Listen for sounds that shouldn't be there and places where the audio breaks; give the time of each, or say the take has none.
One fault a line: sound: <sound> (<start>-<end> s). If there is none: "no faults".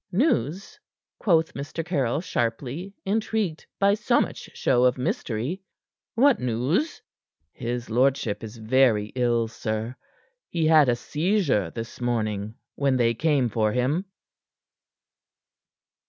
no faults